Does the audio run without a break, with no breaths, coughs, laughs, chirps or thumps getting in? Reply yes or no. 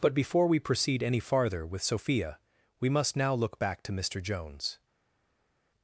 yes